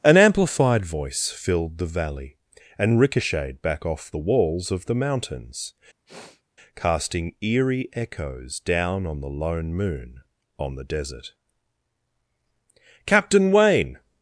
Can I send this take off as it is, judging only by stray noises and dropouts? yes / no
no